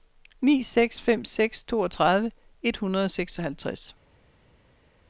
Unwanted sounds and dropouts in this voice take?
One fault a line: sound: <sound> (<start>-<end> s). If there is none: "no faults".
no faults